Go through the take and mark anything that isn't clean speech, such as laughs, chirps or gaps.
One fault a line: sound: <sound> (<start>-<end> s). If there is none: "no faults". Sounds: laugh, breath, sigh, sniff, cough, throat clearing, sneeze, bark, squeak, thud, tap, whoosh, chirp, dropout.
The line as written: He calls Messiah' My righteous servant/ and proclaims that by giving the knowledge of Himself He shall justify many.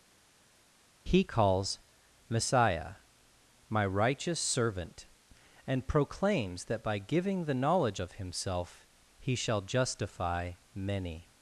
no faults